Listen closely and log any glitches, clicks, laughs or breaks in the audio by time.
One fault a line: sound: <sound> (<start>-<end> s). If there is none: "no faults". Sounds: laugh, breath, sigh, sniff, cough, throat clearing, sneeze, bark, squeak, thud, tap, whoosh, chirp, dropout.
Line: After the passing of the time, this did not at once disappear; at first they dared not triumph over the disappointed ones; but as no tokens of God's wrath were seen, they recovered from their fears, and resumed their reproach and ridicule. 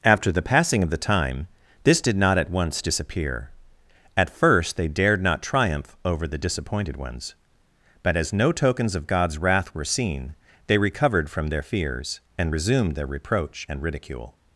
no faults